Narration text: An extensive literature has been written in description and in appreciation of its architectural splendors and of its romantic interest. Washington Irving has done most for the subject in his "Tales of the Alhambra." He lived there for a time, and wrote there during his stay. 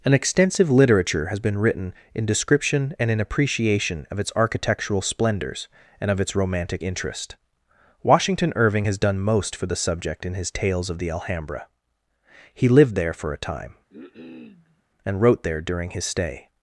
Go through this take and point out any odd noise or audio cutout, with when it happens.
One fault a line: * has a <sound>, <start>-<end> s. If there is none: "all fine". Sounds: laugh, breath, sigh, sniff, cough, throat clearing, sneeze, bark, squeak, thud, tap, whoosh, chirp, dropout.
* has a cough, 13.9-14.8 s